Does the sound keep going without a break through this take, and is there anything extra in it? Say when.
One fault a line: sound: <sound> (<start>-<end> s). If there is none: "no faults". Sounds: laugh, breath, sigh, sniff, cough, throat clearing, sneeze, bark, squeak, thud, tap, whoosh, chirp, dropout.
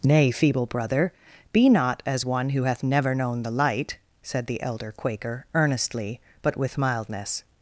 no faults